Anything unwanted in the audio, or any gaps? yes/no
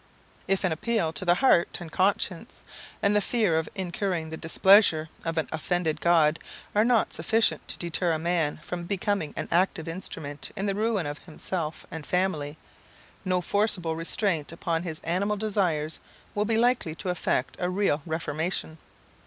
no